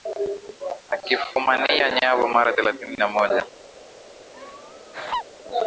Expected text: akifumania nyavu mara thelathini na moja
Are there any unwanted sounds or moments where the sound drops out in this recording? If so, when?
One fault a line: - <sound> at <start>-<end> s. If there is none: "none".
- laugh at 4.3-5.3 s